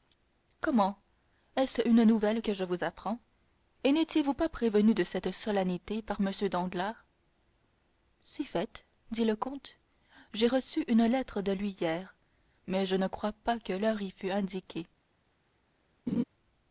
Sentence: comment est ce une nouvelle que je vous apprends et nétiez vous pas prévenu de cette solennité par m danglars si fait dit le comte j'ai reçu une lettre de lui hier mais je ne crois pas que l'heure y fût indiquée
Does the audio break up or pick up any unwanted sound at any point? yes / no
yes